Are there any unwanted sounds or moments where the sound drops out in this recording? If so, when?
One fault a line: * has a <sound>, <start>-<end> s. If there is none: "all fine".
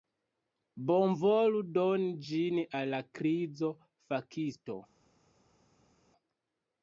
all fine